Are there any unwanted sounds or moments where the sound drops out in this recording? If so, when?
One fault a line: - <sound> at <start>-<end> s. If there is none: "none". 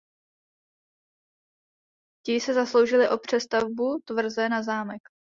none